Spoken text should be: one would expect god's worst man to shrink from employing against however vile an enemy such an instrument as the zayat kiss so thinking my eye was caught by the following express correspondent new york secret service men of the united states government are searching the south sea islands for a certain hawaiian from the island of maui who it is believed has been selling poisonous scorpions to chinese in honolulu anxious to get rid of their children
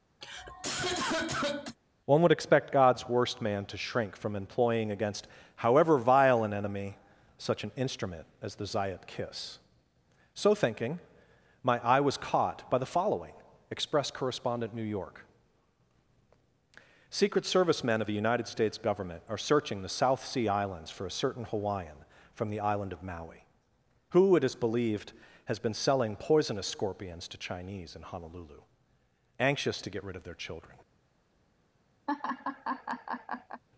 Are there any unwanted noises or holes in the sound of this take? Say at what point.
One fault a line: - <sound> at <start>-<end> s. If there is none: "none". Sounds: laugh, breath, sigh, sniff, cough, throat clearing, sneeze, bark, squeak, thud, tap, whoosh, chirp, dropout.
- cough at 0.2-1.8 s
- laugh at 32.1-33.6 s